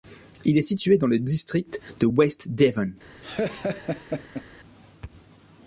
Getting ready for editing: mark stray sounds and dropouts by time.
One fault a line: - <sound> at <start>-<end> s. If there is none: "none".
- laugh at 3.2-4.4 s